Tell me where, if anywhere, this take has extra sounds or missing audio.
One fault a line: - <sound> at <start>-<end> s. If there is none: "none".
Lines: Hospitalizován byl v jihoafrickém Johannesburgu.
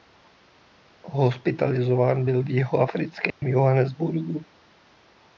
- dropout at 3.3-3.4 s